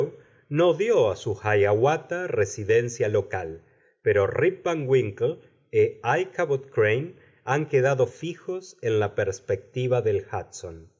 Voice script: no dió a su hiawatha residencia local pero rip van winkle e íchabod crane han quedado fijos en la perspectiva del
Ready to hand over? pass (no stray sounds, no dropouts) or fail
pass